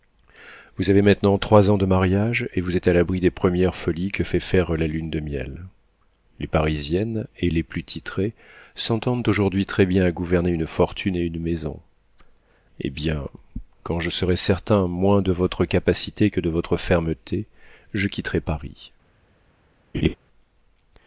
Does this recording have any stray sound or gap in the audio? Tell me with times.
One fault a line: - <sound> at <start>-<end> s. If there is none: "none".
- laugh at 19.9-20.2 s